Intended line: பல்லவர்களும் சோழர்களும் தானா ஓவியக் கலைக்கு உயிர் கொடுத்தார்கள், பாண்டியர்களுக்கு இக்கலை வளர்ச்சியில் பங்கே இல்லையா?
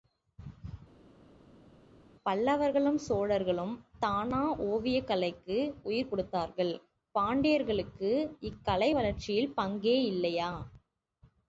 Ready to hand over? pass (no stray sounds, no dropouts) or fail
pass